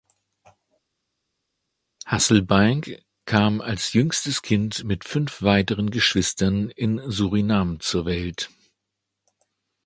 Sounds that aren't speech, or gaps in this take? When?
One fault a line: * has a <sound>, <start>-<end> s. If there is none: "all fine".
all fine